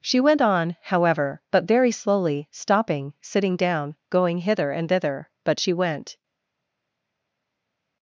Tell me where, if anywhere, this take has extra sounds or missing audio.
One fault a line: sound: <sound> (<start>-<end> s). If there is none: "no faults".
no faults